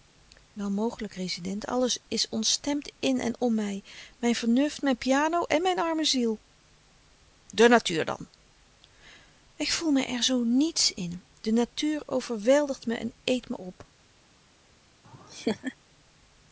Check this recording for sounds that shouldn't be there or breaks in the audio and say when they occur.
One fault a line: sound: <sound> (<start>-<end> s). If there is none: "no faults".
sound: laugh (15.0-15.8 s)